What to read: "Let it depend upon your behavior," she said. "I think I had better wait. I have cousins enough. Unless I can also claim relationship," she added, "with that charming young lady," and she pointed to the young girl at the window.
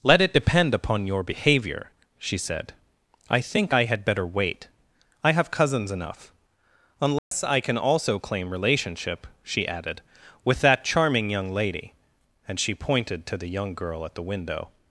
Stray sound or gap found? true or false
true